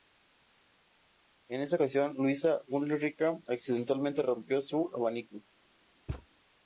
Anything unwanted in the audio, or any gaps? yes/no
yes